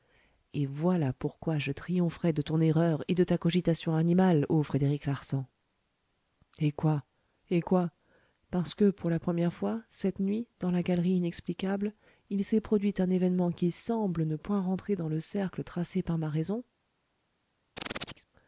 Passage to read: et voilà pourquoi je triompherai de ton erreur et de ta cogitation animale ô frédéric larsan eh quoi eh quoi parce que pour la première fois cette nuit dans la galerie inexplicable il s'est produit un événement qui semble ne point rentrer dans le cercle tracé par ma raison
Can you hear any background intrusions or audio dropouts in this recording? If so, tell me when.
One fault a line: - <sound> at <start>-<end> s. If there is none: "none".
- chirp at 17.8-18.3 s